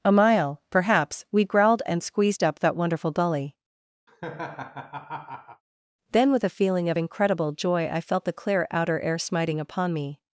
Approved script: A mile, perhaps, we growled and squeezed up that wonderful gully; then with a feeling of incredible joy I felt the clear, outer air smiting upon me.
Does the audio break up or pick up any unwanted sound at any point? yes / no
yes